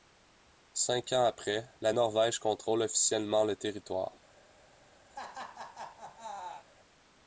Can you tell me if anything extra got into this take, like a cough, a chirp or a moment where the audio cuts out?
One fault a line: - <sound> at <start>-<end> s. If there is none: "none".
- laugh at 5.1-6.7 s